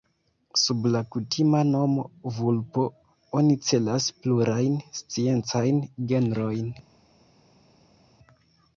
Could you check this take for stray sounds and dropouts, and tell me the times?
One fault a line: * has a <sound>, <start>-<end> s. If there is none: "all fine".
all fine